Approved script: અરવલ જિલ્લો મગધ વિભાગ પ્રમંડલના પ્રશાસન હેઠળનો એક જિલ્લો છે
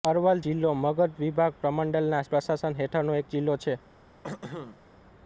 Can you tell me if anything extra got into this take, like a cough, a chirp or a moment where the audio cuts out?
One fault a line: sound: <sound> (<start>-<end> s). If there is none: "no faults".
sound: throat clearing (4.2-4.8 s)